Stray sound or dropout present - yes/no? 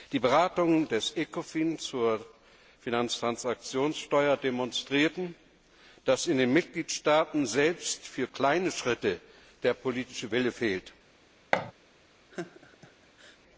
yes